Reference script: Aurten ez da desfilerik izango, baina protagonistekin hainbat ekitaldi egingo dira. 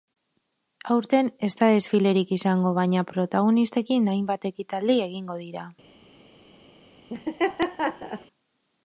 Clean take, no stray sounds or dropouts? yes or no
no